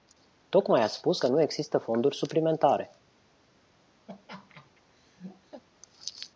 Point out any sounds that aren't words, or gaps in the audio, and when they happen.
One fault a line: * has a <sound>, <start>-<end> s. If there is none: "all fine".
* has a laugh, 4.1-5.6 s